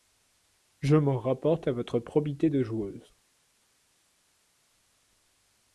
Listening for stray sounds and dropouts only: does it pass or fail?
pass